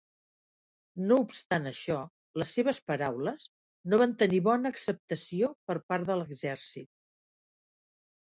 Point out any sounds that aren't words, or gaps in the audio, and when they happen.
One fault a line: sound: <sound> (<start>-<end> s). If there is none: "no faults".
no faults